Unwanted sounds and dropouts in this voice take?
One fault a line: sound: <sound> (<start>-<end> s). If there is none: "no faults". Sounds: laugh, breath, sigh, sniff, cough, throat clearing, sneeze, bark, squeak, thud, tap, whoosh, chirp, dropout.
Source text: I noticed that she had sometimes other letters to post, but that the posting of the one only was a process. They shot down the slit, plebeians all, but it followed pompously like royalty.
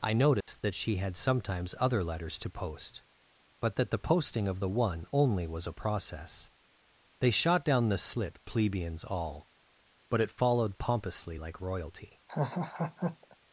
sound: dropout (0.4-0.5 s)
sound: laugh (12.3-13.4 s)